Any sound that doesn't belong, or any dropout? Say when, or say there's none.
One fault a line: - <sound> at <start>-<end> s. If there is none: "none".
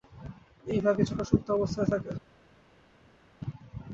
none